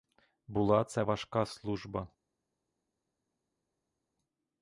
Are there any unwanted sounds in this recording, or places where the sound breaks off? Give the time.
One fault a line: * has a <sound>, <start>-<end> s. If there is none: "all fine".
all fine